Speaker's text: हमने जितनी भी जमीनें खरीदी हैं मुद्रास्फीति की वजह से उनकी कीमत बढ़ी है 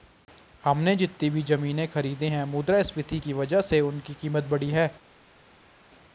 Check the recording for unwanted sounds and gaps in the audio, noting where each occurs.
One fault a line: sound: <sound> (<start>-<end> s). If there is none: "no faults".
no faults